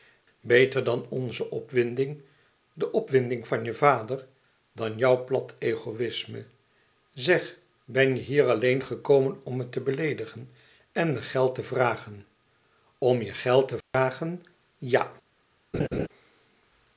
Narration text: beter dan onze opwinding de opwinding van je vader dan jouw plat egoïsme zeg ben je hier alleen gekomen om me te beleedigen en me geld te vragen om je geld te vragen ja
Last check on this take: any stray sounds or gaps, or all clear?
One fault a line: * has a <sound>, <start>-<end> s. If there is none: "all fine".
* has a dropout, 13.8-13.9 s
* has a laugh, 15.7-16.1 s